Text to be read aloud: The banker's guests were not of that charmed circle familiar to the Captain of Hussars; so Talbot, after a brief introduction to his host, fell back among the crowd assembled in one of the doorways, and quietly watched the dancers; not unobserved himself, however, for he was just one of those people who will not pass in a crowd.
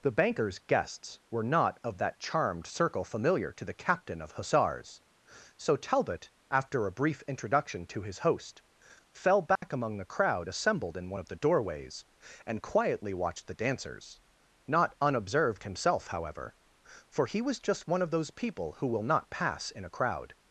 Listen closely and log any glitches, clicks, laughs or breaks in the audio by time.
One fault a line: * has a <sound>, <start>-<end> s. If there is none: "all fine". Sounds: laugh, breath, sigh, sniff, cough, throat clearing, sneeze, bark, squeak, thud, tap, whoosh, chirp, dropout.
* has a dropout, 9.6-9.6 s